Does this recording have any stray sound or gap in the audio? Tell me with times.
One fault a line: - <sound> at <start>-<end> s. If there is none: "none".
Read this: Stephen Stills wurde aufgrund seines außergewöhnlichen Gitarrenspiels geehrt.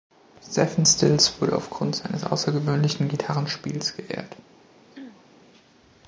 - throat clearing at 4.9-5.3 s